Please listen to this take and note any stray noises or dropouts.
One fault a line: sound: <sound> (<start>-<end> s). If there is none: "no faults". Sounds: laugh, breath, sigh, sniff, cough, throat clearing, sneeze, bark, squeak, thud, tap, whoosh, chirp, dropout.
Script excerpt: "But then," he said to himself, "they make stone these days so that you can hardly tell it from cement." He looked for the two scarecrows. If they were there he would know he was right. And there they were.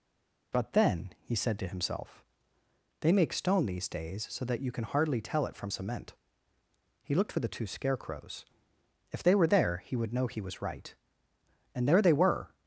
no faults